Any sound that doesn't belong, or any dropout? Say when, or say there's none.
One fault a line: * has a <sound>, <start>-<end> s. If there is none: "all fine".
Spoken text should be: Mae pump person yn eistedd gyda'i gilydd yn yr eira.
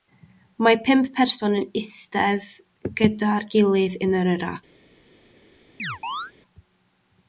* has a chirp, 5.8-6.3 s